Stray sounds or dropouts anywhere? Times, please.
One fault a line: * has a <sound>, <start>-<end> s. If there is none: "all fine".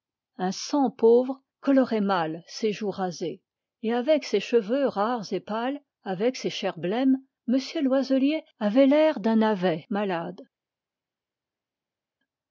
all fine